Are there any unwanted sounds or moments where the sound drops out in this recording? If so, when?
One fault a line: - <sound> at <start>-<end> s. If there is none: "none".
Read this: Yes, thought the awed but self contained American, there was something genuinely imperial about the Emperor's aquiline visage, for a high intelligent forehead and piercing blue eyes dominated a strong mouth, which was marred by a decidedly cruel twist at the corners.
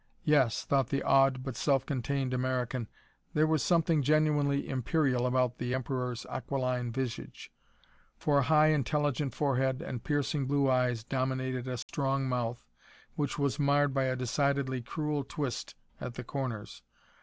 - dropout at 11.8-11.9 s